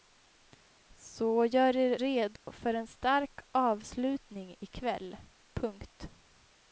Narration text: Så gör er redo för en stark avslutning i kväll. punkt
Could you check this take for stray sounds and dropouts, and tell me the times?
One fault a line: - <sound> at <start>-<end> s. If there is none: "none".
- dropout at 2.4-2.5 s